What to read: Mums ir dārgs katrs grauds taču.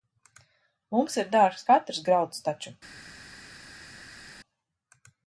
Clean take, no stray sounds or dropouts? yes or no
yes